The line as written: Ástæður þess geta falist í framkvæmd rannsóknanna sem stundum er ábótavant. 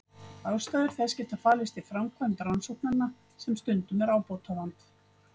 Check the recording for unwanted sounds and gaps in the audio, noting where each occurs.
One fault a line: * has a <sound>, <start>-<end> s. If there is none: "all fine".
all fine